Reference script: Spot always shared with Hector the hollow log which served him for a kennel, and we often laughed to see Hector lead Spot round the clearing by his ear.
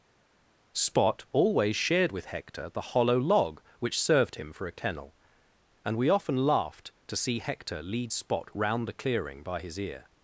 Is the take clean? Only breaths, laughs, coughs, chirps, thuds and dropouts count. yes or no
yes